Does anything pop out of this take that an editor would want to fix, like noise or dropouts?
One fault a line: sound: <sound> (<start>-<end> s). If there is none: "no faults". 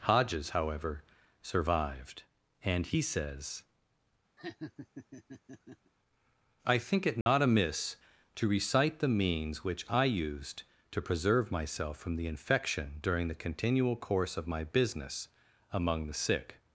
sound: laugh (4.4-5.9 s)
sound: dropout (7.2-7.3 s)